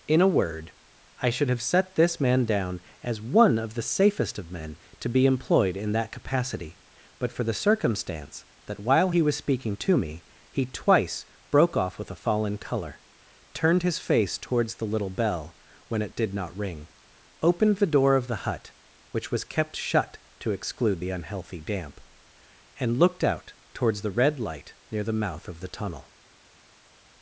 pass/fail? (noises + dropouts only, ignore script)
pass